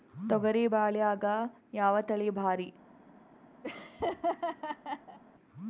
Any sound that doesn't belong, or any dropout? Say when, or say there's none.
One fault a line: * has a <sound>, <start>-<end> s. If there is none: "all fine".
* has a laugh, 3.6-5.2 s